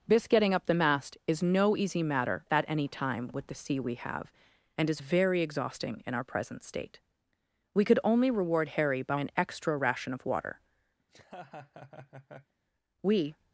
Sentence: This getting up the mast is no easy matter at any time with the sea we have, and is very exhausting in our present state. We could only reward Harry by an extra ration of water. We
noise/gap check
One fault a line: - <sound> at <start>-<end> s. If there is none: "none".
- laugh at 11.0-12.5 s